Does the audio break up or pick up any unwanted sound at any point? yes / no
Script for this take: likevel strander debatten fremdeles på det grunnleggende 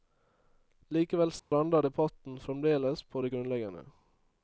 yes